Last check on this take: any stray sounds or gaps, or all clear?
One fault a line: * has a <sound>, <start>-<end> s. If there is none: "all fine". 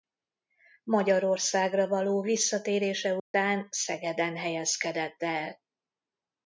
* has a dropout, 3.2-3.3 s